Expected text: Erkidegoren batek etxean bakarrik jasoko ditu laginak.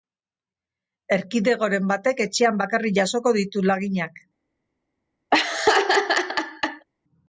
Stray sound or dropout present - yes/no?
yes